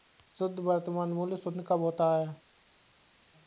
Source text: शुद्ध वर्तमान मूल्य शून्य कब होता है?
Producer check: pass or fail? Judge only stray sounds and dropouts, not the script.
pass